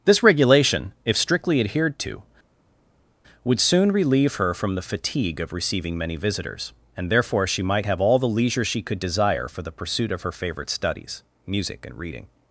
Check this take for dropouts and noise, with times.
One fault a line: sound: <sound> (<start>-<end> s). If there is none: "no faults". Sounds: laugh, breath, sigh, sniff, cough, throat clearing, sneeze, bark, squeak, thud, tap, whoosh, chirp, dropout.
no faults